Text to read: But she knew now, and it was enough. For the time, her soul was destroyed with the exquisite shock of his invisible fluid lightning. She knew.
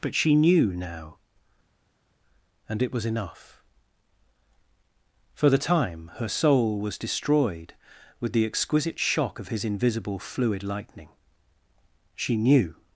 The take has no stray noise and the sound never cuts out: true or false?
true